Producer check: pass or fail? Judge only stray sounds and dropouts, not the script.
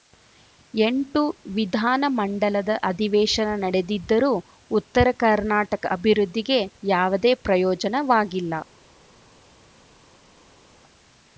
pass